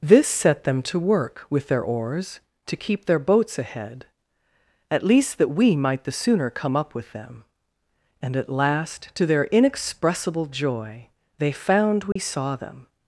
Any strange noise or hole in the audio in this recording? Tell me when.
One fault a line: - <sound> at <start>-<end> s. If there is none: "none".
- dropout at 12.1-12.2 s